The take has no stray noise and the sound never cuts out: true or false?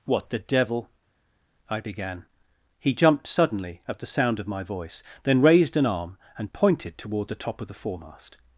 true